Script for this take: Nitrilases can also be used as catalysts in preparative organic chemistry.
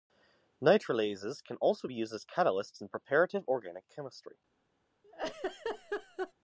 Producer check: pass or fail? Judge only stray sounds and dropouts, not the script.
fail